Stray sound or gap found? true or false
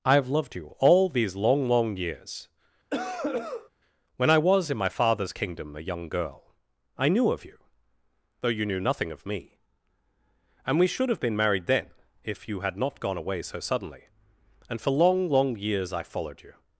true